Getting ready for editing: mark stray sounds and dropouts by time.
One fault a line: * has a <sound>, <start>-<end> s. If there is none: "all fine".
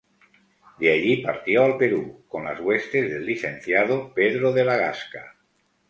all fine